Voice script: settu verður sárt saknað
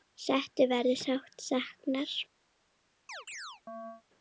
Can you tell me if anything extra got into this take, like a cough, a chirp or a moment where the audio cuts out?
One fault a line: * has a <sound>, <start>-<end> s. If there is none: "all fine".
* has a chirp, 3.1-4.0 s